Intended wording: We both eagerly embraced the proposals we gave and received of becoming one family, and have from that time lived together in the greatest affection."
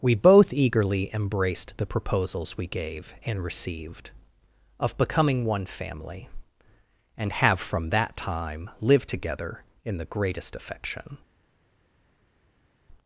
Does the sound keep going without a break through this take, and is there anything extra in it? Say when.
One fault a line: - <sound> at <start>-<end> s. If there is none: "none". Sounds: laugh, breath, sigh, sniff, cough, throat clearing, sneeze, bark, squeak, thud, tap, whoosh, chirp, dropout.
none